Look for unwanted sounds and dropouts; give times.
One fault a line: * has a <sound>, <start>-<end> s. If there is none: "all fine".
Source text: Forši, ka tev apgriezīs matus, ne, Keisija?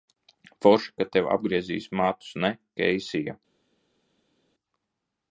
all fine